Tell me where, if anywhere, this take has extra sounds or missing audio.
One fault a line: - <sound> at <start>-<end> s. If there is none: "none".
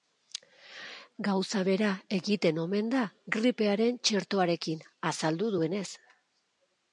none